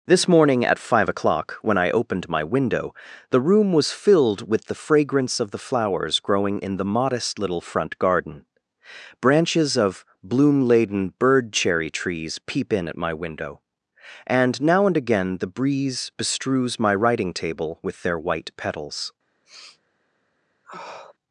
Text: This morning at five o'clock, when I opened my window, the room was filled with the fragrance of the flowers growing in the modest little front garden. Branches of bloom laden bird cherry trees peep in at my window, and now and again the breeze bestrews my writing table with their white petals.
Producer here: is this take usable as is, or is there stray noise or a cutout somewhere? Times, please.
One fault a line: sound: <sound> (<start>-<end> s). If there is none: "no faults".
sound: sniff (19.4-19.8 s)
sound: sniff (20.6-21.1 s)